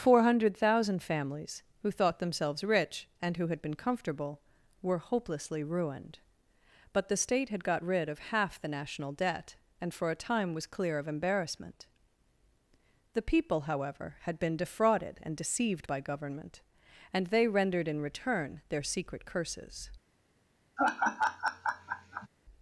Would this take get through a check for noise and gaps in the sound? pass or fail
fail